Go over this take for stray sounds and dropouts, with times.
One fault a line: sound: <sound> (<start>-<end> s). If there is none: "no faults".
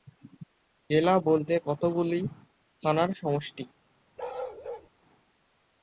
sound: bark (4.2-4.9 s)